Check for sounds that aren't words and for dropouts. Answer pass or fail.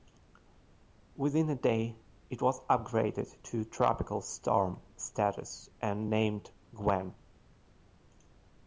pass